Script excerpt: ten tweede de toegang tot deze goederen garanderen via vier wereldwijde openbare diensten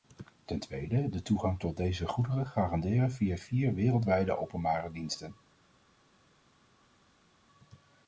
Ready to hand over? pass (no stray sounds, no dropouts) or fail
pass